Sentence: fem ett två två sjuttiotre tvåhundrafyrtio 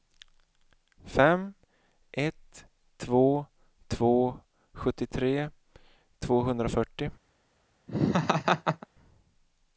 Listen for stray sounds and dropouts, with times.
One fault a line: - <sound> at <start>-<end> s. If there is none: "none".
- laugh at 7.9-8.9 s